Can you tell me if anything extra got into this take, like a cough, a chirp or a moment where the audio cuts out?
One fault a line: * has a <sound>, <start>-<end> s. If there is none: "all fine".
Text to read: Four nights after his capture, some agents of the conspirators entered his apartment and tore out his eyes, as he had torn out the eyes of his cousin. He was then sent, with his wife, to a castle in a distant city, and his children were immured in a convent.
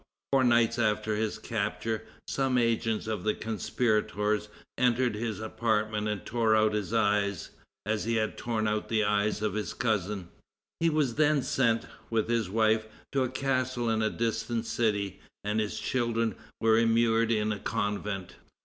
all fine